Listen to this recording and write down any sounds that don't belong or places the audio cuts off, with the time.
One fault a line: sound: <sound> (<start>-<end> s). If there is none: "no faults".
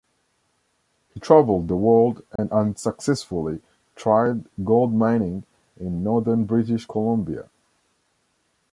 sound: dropout (2.4-2.4 s)